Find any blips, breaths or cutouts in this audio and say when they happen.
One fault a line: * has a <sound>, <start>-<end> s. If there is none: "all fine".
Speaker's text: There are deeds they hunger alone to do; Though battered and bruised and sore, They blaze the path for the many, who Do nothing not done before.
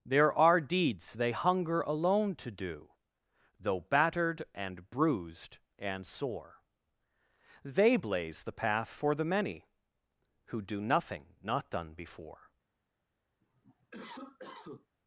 * has a cough, 13.4-14.9 s